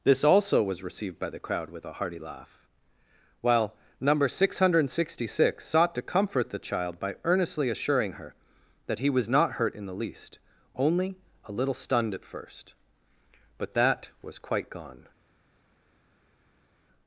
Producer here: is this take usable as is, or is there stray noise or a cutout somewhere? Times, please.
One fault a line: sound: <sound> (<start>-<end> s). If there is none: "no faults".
no faults